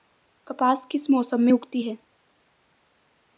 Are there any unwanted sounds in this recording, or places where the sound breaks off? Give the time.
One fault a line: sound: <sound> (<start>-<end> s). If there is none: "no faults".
no faults